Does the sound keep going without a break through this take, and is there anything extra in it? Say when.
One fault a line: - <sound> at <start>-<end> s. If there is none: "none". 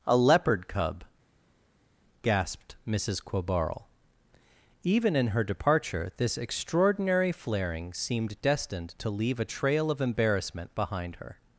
none